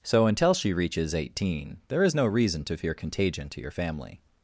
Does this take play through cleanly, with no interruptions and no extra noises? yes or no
yes